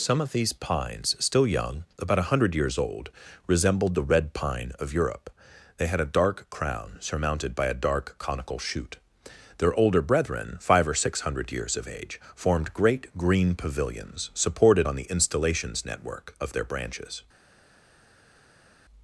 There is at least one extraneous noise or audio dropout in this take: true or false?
false